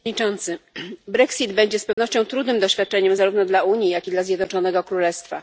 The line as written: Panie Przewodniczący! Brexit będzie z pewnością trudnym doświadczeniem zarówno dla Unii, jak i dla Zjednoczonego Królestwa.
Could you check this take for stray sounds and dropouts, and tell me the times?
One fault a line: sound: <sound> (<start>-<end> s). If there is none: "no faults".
sound: dropout (1.9-2.0 s)